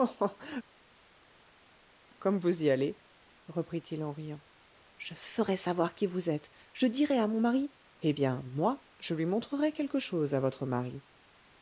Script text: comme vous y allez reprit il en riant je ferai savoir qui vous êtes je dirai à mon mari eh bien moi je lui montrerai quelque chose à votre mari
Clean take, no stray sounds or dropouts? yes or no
yes